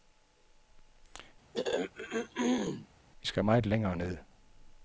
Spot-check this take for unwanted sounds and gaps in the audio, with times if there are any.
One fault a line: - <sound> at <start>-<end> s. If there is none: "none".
- throat clearing at 1.5-2.9 s